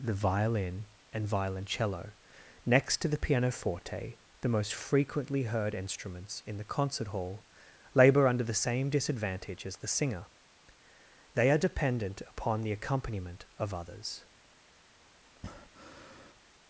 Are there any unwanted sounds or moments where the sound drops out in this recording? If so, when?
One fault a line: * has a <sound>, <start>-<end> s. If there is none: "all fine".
* has a breath, 15.4-16.4 s